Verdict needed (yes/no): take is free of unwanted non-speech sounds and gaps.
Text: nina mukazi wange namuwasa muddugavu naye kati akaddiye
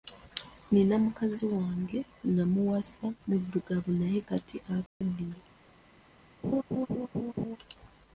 no